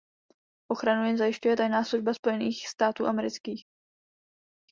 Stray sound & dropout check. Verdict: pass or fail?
pass